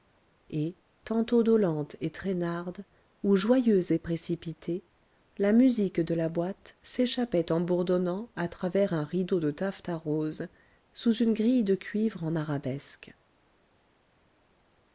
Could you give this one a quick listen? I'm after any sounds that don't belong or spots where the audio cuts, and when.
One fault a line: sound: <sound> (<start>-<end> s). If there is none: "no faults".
no faults